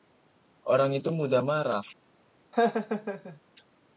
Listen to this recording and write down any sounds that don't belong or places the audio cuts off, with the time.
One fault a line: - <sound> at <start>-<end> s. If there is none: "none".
- laugh at 2.5-3.4 s